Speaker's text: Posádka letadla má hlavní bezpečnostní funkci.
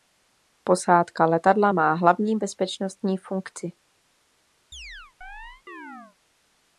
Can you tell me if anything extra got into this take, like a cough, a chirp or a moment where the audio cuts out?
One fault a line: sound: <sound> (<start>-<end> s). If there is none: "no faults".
sound: chirp (4.7-6.2 s)